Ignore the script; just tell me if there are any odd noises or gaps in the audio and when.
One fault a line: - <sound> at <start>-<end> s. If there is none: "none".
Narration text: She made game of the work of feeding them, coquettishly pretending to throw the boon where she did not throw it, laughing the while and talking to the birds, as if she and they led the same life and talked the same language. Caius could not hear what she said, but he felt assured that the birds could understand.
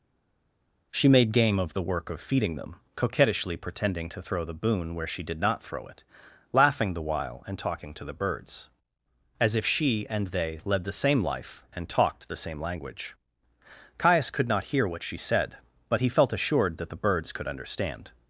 none